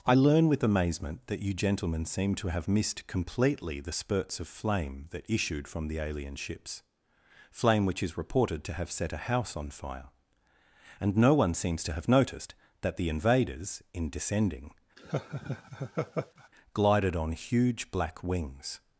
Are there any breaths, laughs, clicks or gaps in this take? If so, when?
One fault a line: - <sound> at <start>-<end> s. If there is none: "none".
- laugh at 15.0-16.5 s